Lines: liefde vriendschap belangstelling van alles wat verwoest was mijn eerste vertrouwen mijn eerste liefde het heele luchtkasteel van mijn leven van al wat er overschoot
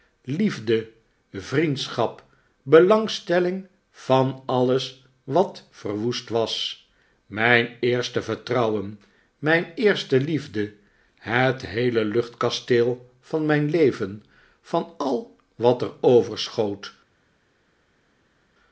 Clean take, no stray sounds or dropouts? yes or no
yes